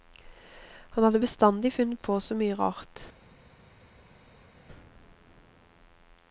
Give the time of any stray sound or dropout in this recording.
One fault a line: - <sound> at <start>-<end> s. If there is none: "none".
none